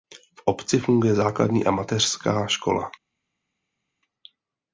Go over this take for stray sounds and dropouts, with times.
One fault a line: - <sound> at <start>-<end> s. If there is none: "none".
none